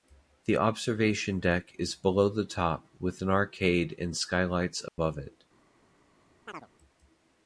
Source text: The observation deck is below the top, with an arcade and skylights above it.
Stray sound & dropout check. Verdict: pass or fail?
fail